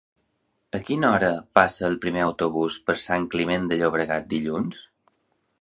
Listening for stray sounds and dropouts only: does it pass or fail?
pass